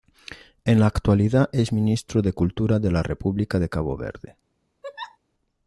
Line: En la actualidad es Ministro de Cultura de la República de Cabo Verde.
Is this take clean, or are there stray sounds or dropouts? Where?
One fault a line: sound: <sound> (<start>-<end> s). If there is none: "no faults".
sound: laugh (4.8-5.2 s)